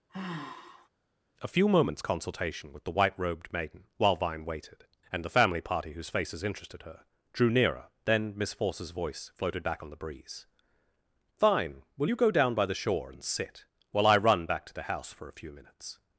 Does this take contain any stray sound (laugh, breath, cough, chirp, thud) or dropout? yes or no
yes